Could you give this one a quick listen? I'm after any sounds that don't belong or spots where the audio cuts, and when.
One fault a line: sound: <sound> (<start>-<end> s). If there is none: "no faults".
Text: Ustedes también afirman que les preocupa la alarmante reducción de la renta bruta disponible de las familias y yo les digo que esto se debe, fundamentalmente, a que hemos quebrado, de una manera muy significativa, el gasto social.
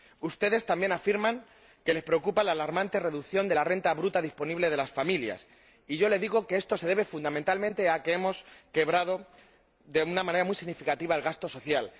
no faults